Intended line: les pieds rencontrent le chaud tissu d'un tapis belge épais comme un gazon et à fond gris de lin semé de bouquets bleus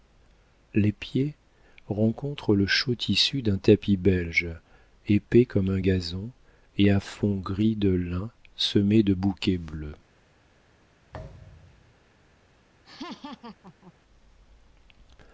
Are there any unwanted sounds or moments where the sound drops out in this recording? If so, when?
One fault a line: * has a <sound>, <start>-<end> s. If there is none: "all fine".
* has a thud, 11.1-11.9 s
* has a laugh, 12.8-13.9 s